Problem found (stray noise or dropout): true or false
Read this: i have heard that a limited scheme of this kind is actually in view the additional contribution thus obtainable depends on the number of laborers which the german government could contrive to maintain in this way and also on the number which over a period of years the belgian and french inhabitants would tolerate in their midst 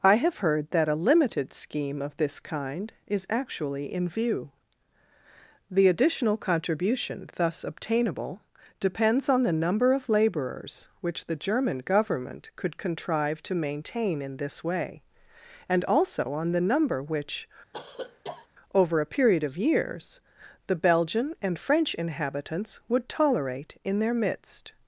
true